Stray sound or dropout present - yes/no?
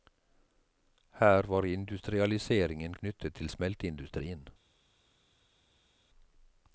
no